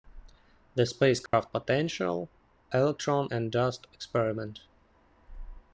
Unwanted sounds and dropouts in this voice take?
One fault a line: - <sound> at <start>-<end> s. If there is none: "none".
- dropout at 1.3-1.3 s